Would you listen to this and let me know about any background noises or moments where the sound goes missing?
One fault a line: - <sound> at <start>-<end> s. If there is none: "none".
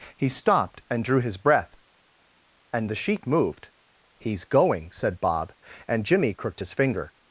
none